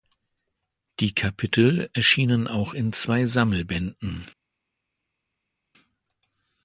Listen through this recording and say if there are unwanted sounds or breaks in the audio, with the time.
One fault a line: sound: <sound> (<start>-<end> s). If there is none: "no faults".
no faults